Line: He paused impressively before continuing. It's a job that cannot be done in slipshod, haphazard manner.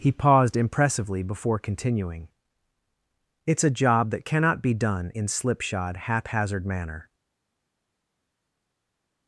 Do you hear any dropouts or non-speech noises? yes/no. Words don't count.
no